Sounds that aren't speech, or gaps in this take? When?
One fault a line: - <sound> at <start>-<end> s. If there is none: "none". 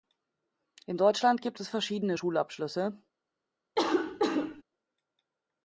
- cough at 3.8-4.6 s